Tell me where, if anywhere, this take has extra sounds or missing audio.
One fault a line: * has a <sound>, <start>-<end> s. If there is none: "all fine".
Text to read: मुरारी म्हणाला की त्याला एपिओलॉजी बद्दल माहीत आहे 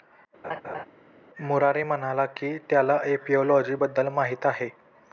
* has a laugh, 0.4-0.9 s